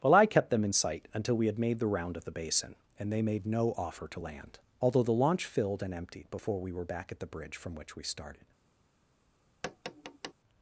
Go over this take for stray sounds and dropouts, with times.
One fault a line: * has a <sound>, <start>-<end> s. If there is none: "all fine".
* has a tap, 9.6-10.3 s